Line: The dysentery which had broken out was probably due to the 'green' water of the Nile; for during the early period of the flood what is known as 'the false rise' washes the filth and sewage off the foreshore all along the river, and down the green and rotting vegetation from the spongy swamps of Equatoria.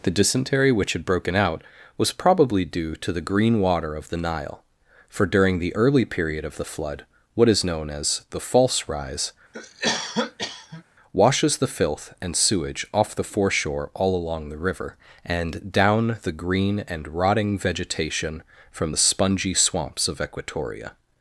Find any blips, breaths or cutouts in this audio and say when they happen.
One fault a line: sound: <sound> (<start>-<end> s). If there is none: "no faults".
sound: cough (9.5-10.8 s)